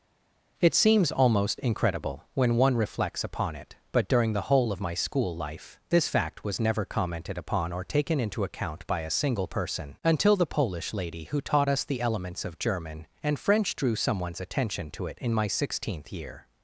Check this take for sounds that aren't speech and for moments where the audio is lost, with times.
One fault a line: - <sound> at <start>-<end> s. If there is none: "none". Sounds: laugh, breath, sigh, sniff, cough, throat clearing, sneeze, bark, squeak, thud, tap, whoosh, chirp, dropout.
none